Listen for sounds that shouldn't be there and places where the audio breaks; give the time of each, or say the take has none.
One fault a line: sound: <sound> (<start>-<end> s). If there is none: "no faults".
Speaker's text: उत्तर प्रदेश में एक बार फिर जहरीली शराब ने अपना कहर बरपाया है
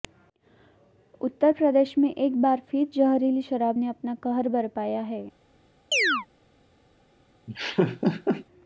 sound: chirp (5.9-6.3 s)
sound: laugh (7.5-8.5 s)